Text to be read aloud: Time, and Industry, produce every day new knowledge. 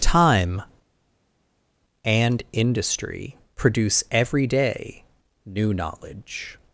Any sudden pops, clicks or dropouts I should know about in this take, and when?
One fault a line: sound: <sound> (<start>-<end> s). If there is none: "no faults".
no faults